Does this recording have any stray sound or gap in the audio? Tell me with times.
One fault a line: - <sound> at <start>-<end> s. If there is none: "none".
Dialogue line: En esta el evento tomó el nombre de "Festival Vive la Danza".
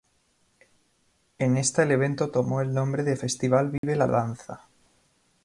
- dropout at 3.8-3.8 s